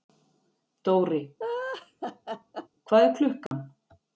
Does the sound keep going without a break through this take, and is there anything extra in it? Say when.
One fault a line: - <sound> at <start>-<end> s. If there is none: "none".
- laugh at 1.4-2.7 s
- dropout at 3.5-3.5 s